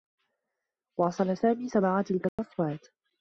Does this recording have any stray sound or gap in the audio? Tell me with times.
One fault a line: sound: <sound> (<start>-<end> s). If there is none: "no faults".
sound: dropout (2.3-2.4 s)